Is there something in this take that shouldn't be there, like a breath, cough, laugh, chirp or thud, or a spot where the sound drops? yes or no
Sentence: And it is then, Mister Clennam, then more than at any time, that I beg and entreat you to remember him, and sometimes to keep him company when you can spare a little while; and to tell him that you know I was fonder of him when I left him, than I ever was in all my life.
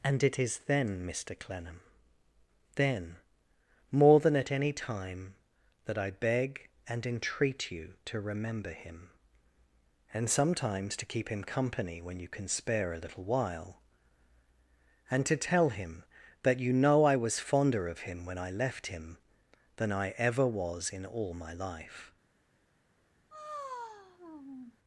yes